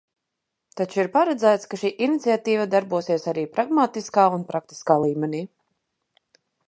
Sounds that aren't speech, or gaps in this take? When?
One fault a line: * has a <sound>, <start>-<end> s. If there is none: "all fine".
all fine